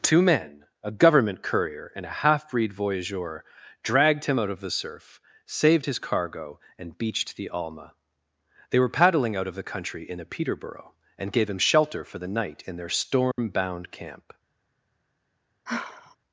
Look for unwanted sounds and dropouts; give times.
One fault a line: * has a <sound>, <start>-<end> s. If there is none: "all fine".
* has a dropout, 13.3-13.4 s
* has a sigh, 15.7-16.2 s